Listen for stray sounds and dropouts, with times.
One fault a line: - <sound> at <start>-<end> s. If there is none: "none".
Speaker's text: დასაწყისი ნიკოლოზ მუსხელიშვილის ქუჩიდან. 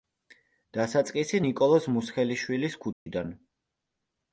- dropout at 2.9-3.1 s